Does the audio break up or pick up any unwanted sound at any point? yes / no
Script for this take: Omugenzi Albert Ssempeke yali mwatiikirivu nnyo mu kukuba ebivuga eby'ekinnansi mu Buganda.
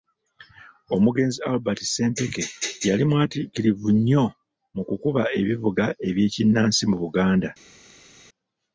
no